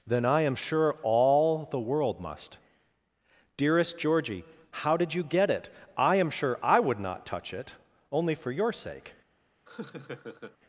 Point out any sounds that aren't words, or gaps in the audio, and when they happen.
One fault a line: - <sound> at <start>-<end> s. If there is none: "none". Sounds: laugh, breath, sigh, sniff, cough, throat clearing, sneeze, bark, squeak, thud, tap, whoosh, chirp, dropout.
- laugh at 9.7-10.6 s